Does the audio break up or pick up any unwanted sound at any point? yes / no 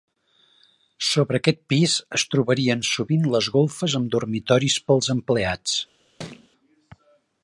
yes